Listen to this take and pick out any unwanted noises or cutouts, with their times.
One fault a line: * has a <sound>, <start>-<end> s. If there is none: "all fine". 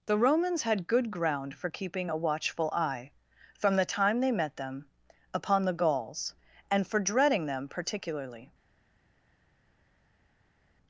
all fine